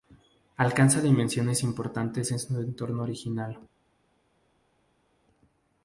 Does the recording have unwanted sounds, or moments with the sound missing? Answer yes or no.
no